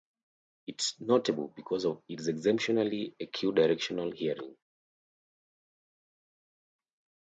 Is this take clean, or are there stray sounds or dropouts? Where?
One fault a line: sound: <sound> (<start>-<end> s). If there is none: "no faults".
no faults